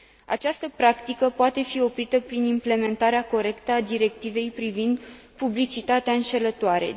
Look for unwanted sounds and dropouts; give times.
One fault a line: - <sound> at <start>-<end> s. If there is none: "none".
none